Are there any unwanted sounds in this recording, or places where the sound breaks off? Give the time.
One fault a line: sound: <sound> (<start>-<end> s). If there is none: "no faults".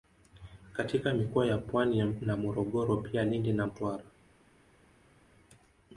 no faults